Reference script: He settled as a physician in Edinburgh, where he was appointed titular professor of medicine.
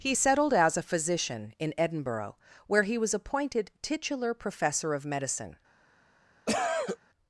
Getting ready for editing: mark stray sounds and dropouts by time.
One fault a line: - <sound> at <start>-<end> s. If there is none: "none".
- cough at 6.5-7.0 s